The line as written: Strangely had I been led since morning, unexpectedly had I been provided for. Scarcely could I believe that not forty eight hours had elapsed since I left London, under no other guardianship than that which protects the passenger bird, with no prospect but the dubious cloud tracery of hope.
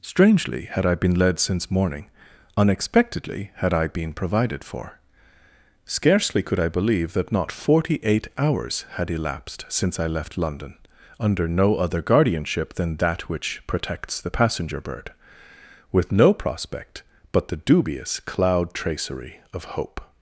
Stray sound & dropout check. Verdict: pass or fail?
pass